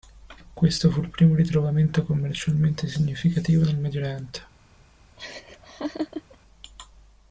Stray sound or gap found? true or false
true